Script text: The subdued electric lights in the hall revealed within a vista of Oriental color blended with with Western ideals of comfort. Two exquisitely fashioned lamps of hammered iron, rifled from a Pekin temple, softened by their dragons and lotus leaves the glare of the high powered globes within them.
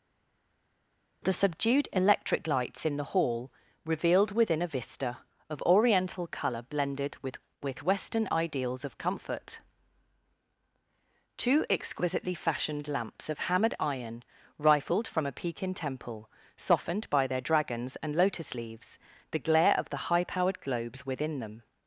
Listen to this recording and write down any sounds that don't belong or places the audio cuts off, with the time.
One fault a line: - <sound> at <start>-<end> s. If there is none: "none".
none